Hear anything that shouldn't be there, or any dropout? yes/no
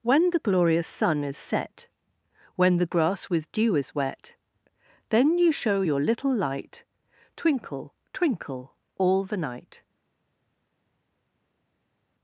no